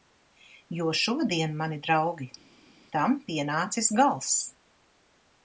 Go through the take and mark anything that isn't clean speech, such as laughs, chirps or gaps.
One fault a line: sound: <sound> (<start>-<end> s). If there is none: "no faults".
no faults